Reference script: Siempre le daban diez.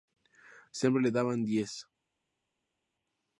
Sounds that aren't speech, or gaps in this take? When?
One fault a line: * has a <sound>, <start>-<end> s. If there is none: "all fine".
all fine